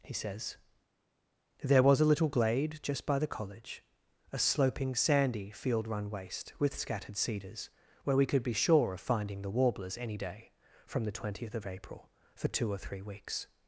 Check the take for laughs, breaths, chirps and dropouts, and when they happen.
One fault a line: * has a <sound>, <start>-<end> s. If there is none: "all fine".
all fine